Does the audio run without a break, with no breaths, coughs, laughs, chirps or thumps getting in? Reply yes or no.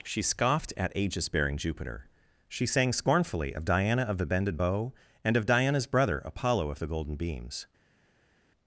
yes